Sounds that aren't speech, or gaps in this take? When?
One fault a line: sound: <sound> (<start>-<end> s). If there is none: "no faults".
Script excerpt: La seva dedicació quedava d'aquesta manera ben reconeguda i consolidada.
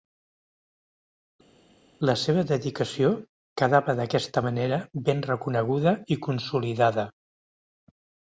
no faults